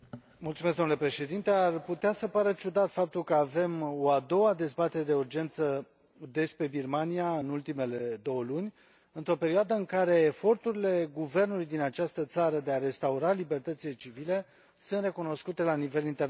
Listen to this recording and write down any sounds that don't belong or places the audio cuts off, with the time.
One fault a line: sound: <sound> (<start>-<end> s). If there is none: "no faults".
no faults